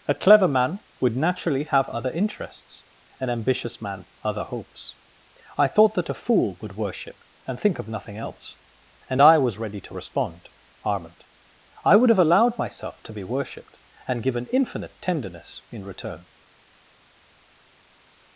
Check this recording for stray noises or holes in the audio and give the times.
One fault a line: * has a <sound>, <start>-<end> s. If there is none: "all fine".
all fine